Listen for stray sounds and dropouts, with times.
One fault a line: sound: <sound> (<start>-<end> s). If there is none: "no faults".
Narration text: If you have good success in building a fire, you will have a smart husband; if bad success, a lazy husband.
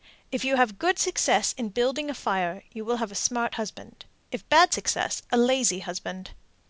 no faults